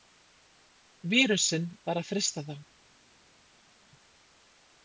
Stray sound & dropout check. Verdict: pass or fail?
pass